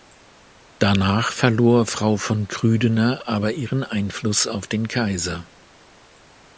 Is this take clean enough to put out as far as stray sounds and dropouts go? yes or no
yes